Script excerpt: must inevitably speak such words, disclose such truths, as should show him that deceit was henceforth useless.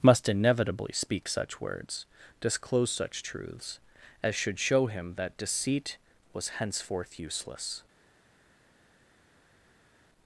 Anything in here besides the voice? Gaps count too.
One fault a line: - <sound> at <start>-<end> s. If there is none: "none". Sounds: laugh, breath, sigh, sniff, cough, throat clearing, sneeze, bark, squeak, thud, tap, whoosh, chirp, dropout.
none